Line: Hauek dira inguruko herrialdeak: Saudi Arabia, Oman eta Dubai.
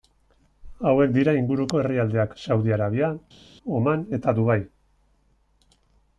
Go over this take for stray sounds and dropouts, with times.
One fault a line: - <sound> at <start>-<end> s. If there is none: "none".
none